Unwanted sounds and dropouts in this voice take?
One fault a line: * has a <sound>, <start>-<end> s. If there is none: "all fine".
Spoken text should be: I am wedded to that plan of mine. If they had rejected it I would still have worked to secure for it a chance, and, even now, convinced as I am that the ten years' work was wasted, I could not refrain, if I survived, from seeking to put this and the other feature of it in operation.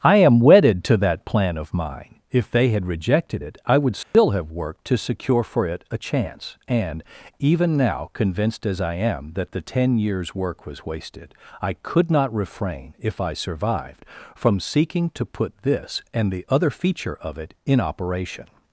* has a dropout, 4.0-4.1 s